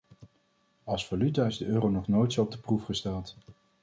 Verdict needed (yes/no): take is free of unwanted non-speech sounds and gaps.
yes